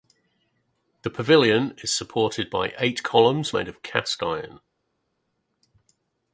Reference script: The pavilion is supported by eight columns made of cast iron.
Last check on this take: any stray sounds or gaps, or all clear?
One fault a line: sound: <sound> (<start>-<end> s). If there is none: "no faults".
no faults